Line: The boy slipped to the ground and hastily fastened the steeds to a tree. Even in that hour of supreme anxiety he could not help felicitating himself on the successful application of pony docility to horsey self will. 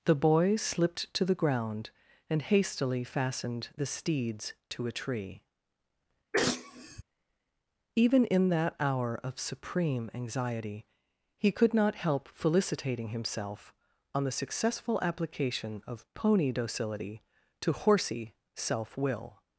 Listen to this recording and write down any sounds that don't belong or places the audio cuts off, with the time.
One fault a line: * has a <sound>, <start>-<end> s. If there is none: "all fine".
* has a sneeze, 6.3-7.0 s